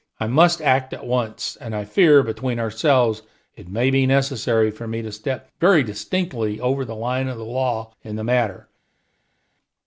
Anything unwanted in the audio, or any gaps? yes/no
no